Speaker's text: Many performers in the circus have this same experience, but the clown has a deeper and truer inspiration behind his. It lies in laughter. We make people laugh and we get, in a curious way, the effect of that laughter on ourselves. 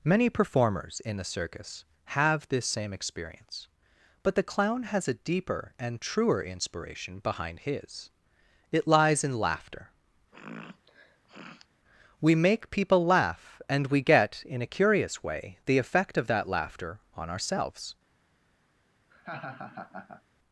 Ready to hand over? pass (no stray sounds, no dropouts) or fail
fail